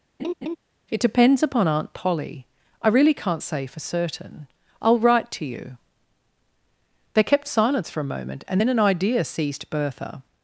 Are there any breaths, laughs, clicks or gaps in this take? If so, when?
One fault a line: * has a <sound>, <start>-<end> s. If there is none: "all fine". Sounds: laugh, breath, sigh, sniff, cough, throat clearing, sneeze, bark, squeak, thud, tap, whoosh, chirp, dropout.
* has a laugh, 0.2-0.6 s